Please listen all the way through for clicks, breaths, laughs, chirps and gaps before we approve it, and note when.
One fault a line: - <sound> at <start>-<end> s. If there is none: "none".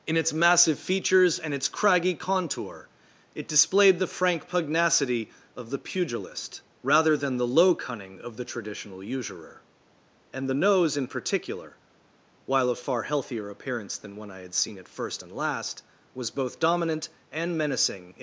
none